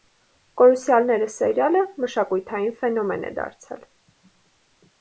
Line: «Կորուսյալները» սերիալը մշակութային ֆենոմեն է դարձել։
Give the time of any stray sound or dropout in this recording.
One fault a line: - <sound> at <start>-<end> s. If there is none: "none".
none